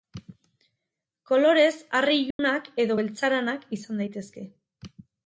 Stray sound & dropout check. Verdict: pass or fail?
fail